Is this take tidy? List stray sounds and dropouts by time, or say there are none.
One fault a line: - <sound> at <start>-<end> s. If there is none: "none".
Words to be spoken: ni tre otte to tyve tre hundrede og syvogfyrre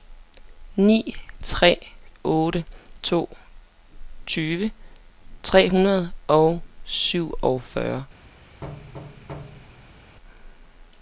- thud at 8.6-10.2 s